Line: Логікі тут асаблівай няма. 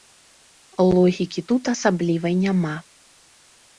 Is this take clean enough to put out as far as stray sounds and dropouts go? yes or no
yes